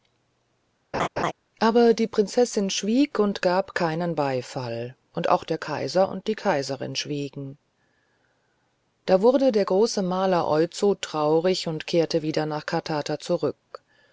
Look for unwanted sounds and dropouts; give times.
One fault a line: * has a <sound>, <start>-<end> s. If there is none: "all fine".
* has a laugh, 0.9-1.3 s